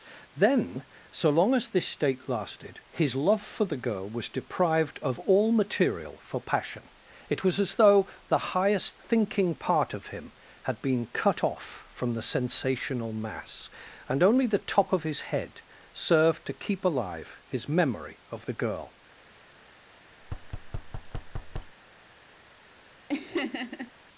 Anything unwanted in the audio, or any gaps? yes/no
yes